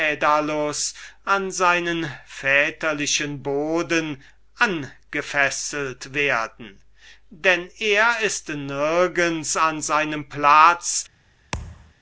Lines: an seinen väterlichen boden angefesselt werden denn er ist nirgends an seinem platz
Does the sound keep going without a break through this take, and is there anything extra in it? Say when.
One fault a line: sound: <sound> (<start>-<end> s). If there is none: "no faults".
sound: thud (11.5-11.9 s)